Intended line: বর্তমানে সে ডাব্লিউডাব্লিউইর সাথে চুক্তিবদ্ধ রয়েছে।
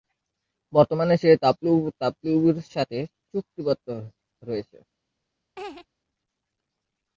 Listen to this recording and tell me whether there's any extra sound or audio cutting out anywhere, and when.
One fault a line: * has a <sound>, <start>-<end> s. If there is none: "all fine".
* has a laugh, 5.6-5.9 s